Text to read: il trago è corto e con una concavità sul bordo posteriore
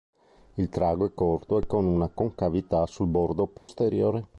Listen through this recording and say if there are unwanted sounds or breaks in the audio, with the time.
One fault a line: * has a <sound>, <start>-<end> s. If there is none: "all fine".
* has a dropout, 3.6-3.7 s